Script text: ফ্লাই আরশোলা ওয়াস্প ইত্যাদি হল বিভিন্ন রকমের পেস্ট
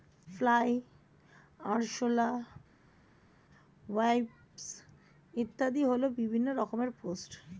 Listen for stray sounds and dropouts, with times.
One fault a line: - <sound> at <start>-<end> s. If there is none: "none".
none